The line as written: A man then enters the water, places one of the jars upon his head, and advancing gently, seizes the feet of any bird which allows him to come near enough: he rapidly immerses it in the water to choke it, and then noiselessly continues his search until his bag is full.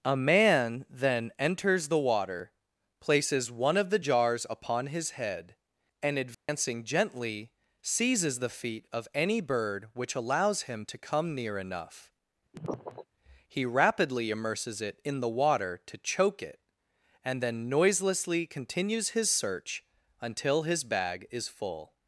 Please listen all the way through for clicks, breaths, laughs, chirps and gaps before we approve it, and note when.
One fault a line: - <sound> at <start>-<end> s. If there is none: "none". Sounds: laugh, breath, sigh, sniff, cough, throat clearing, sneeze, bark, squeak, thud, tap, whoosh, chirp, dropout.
- dropout at 6.3-6.5 s
- sniff at 12.5-13.1 s